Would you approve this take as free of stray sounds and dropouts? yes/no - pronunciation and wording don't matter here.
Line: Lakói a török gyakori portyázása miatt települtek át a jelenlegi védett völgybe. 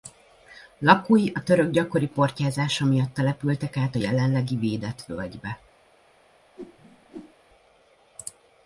no